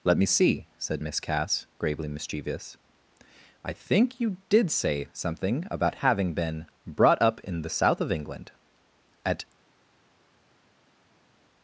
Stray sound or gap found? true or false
false